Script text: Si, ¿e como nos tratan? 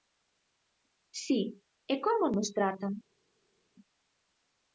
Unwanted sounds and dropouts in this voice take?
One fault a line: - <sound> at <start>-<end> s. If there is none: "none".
none